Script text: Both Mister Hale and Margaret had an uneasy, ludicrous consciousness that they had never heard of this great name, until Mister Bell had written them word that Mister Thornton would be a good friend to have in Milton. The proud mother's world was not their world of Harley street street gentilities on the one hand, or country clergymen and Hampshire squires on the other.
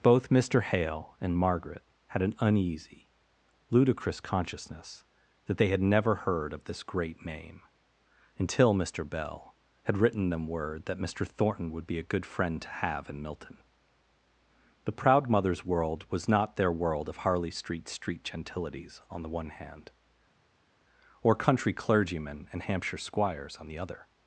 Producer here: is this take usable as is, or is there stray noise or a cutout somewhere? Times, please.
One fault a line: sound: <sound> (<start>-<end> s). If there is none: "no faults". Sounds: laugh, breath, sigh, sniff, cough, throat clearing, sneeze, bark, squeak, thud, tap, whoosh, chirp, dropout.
no faults